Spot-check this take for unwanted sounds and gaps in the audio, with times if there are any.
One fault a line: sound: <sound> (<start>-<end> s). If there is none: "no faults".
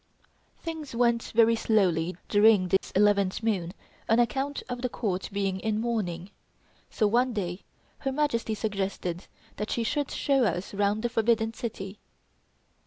sound: dropout (2.8-2.8 s)